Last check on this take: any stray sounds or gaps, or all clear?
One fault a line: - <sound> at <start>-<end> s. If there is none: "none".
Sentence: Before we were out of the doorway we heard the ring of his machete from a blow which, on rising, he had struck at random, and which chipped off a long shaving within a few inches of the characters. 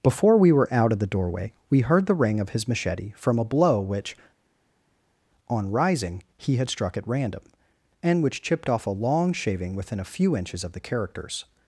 none